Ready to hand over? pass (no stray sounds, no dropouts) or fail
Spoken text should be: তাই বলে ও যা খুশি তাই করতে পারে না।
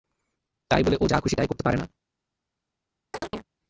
fail